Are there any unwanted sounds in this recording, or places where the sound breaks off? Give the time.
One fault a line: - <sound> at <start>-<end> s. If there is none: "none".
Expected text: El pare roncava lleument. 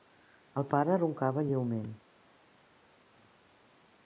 none